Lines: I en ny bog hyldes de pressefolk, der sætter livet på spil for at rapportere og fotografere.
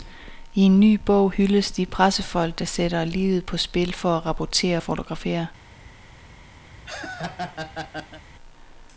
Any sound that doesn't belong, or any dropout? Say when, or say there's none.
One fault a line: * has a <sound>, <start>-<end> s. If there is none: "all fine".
* has a laugh, 6.7-8.2 s